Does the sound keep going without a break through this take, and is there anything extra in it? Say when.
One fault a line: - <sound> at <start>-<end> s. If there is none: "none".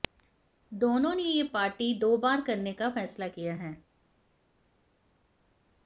none